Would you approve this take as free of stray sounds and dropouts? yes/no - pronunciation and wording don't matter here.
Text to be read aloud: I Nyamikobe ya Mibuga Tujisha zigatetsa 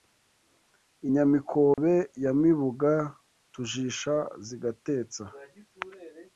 no